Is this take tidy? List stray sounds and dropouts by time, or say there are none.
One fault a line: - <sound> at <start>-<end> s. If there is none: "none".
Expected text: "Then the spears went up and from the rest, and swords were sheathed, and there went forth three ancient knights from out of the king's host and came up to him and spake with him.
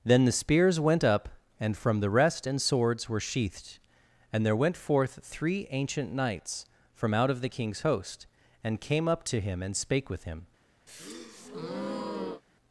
- breath at 10.9-12.4 s